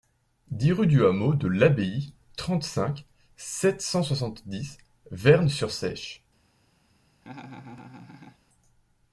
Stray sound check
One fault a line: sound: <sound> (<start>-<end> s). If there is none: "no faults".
sound: laugh (7.2-8.4 s)